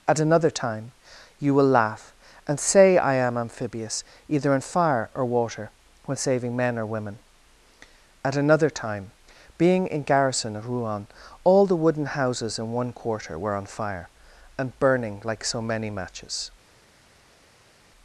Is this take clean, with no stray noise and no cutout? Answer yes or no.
yes